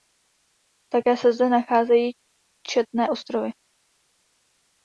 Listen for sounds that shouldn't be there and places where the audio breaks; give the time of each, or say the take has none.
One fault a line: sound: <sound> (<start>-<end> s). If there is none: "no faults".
no faults